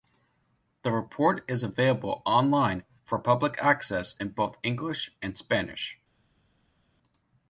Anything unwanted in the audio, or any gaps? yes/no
no